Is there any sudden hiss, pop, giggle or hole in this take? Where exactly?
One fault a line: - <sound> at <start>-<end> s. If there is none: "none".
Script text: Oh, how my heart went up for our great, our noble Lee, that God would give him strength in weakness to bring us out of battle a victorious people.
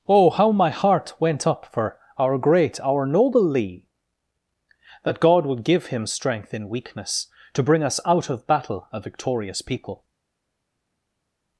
none